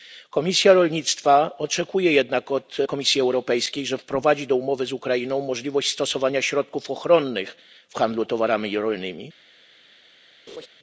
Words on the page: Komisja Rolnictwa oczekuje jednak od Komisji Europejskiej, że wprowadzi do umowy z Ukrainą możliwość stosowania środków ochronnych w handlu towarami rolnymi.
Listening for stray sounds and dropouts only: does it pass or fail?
fail